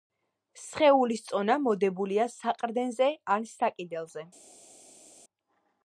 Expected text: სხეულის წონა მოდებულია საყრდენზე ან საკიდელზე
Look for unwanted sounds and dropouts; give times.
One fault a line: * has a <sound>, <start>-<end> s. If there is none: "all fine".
all fine